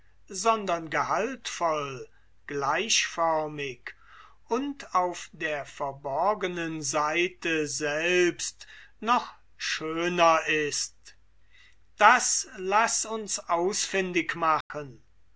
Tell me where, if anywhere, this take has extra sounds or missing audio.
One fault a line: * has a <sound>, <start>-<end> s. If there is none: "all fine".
* has a dropout, 14.6-14.7 s